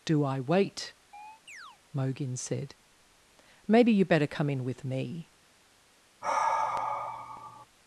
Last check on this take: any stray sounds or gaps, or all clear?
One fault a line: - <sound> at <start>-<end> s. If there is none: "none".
- chirp at 1.1-1.8 s
- sigh at 6.2-7.7 s